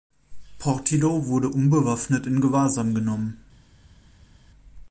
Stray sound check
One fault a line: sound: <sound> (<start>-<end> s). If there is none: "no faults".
no faults